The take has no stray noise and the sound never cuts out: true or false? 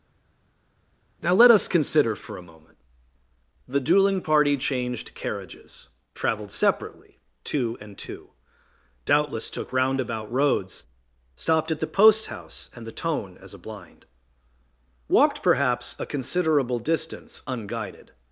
true